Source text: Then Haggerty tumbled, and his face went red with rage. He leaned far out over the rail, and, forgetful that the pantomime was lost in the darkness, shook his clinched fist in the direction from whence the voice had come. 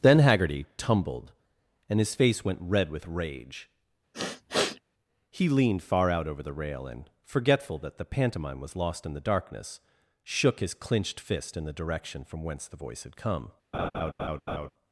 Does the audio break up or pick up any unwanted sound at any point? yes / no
yes